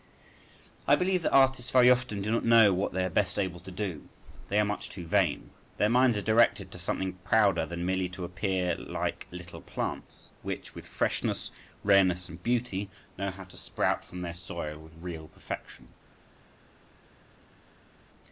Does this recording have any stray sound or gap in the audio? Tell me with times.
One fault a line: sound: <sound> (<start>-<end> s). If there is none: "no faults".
no faults